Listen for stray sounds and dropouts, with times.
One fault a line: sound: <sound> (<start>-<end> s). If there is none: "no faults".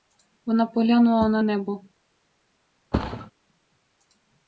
sound: thud (2.9-3.3 s)